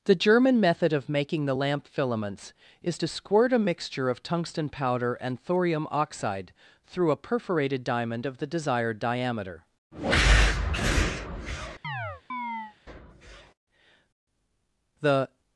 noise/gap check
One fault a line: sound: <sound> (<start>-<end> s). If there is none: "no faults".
sound: chirp (11.8-12.8 s)